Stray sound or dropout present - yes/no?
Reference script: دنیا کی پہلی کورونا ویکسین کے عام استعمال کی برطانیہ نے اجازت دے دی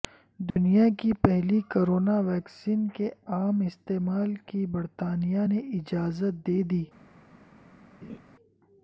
yes